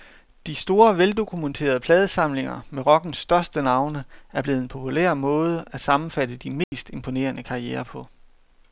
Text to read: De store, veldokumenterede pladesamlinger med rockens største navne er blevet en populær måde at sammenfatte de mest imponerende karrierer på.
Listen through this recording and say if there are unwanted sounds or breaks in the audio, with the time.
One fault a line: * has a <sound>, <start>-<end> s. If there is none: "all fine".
* has a dropout, 6.6-6.7 s